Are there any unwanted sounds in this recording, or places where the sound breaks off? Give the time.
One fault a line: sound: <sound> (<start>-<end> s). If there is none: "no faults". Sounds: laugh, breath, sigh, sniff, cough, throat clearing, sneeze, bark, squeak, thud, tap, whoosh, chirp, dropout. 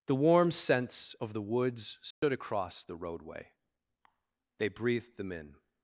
sound: dropout (2.1-2.2 s)